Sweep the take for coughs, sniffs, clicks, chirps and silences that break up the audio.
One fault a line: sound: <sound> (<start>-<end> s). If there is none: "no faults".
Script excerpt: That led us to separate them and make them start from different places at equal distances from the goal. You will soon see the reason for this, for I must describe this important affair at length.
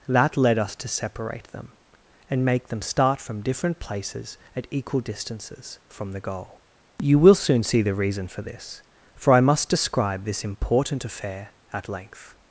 no faults